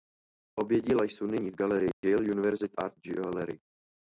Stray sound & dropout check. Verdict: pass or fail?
fail